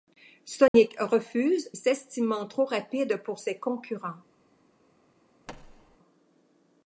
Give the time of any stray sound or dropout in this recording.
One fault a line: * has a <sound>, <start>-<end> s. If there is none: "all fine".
* has a dropout, 0.7-0.7 s
* has a thud, 5.5-6.0 s